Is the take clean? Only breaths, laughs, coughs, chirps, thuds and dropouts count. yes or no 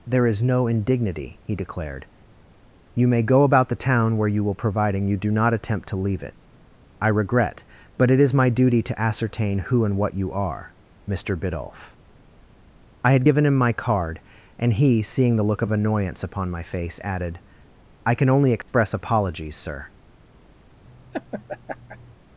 no